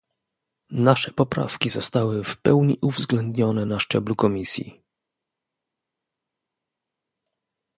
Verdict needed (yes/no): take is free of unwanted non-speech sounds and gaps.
yes